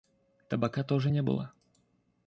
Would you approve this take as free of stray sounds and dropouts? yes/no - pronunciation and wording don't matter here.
yes